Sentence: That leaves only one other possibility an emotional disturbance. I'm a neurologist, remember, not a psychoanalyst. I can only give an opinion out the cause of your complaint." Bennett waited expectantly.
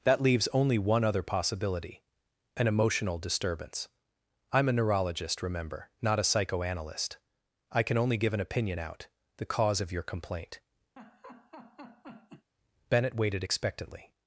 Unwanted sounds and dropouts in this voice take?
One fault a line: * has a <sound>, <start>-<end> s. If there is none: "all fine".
* has a laugh, 11.0-12.5 s